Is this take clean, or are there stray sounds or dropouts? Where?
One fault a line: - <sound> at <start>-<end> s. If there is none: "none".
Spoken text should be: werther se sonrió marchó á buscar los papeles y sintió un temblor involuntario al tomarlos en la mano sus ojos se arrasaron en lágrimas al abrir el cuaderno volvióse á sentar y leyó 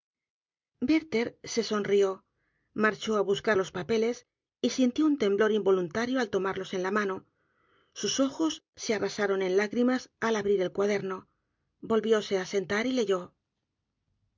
none